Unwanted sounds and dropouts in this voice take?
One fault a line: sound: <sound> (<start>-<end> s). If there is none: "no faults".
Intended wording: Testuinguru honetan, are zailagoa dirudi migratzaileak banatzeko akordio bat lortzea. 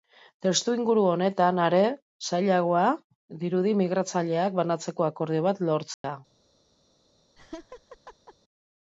sound: dropout (5.9-6.0 s)
sound: laugh (7.4-8.3 s)